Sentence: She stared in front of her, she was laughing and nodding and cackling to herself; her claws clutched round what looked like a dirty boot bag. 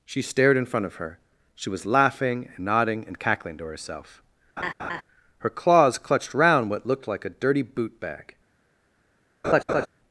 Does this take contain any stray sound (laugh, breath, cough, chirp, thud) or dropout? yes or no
yes